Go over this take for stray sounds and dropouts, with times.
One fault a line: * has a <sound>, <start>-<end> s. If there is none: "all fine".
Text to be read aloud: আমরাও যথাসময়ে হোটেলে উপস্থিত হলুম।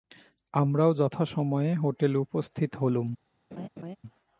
* has a laugh, 3.5-4.0 s